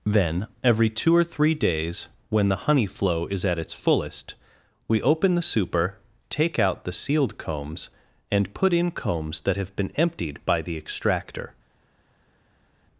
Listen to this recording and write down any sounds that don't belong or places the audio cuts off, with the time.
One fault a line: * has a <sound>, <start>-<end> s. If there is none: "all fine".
all fine